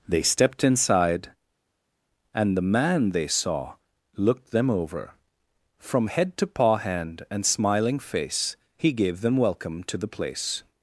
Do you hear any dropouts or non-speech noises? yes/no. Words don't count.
no